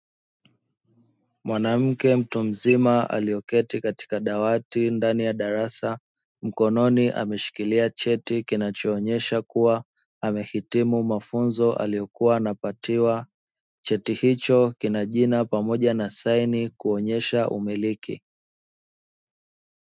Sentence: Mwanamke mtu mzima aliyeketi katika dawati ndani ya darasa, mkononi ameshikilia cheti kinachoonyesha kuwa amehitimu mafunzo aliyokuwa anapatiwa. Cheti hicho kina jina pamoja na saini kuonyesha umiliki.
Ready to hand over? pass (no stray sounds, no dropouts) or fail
pass